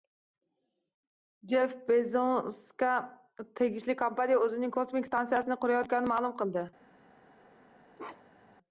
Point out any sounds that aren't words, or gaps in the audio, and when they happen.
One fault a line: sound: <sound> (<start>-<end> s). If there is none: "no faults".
sound: bark (8.0-8.6 s)